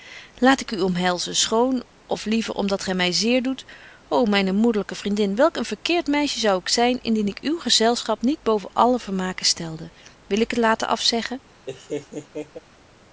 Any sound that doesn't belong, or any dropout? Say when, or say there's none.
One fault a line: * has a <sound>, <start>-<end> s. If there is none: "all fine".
* has a laugh, 11.7-12.6 s